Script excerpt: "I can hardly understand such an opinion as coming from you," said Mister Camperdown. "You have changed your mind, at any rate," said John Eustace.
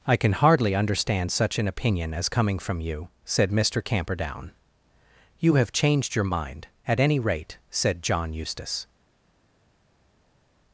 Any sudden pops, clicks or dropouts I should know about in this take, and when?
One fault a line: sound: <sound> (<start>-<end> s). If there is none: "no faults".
no faults